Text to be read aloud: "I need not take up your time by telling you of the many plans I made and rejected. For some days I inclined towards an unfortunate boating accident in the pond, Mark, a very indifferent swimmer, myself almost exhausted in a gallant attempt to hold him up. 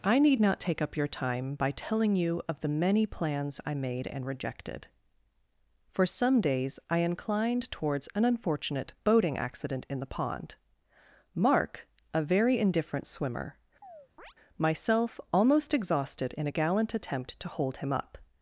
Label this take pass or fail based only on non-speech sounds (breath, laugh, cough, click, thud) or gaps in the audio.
fail